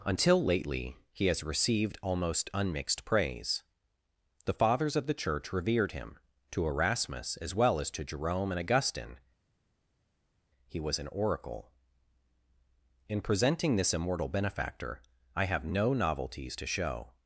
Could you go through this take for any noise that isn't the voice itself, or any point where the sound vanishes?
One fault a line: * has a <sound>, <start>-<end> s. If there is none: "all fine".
all fine